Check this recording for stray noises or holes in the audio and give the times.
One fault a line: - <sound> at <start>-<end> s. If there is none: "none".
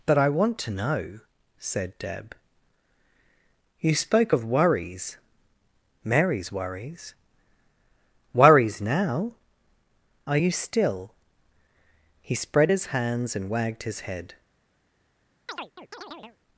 - chirp at 15.5-16.4 s